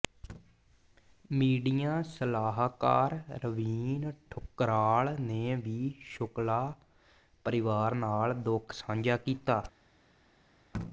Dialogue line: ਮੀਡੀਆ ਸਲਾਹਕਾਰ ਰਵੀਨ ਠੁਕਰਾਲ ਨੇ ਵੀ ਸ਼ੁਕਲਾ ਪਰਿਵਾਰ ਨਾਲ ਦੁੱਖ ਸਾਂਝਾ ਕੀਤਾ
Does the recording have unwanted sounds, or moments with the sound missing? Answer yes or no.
no